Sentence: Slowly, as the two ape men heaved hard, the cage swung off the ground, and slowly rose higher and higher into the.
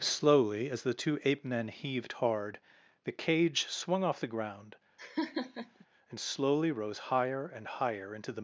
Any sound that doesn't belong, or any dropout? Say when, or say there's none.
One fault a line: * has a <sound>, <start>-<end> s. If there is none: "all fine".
* has a laugh, 5.0-5.9 s